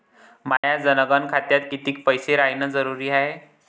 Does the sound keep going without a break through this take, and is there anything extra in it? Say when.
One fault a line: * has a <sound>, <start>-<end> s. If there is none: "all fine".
* has a dropout, 0.6-0.6 s